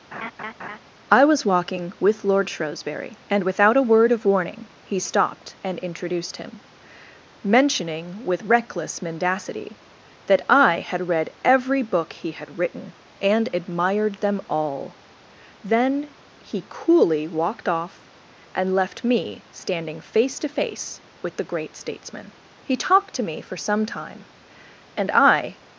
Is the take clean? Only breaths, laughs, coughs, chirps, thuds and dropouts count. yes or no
no